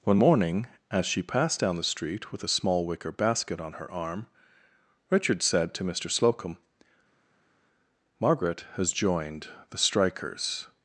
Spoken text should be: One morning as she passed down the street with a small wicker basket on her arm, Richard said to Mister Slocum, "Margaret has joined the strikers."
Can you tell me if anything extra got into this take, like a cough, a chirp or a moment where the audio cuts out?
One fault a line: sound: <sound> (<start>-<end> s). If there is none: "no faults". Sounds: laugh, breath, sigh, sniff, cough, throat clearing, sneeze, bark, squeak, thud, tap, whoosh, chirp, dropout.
no faults